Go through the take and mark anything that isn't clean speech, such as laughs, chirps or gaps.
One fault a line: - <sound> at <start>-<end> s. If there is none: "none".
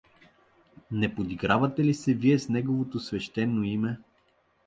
none